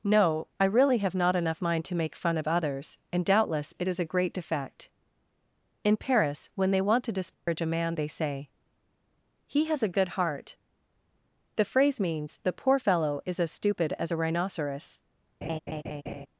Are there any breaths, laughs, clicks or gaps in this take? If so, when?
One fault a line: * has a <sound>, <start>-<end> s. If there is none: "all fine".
* has a dropout, 7.3-7.5 s
* has a laugh, 15.4-16.3 s